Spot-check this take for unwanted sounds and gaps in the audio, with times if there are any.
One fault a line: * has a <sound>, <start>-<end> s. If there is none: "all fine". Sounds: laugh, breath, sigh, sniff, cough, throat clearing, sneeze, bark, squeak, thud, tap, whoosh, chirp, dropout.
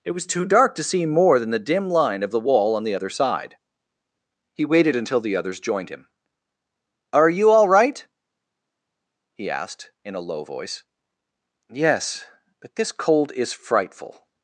all fine